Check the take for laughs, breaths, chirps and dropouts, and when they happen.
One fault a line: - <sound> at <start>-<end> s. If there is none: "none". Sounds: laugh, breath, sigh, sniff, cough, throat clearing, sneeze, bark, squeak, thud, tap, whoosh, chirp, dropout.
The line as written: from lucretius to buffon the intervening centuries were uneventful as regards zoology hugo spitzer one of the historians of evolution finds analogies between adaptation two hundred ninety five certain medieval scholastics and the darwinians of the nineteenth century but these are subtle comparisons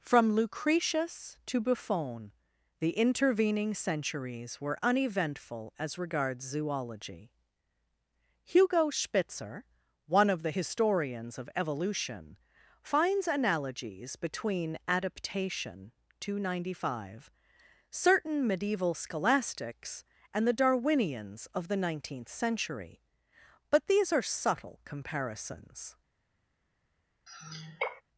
- sigh at 27.3-28.0 s